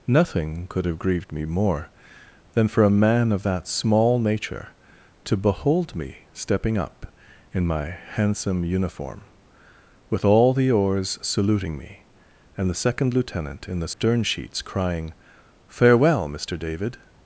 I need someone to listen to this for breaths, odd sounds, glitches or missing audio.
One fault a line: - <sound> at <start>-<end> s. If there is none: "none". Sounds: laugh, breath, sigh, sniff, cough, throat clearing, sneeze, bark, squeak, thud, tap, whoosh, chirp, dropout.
- dropout at 13.9-14.0 s